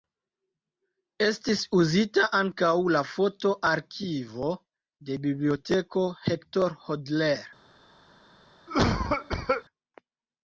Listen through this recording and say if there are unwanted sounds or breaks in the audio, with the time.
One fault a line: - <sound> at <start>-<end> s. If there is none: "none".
- cough at 8.7-9.6 s